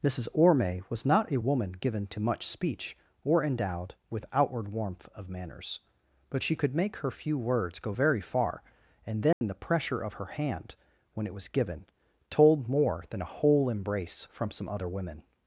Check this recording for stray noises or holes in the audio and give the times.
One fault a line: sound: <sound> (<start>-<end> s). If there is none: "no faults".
sound: dropout (9.3-9.4 s)